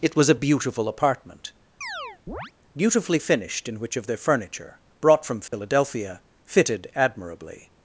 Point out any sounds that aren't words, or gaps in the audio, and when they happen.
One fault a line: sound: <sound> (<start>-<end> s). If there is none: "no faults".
sound: chirp (1.8-2.5 s)
sound: dropout (5.5-5.5 s)